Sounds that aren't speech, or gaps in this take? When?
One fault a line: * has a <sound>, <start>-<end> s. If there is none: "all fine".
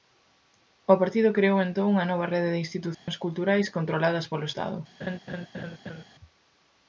* has a dropout, 2.9-3.1 s
* has a laugh, 5.0-6.0 s